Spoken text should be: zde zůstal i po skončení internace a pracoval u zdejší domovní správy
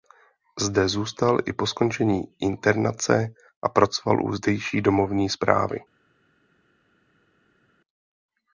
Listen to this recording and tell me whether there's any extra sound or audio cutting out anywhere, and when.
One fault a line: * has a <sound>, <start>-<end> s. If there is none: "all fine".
all fine